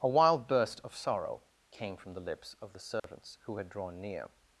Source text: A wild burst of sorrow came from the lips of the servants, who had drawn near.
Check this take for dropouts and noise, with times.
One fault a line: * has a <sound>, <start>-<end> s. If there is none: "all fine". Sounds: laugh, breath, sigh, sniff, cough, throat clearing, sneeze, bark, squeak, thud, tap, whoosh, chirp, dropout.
* has a dropout, 3.0-3.0 s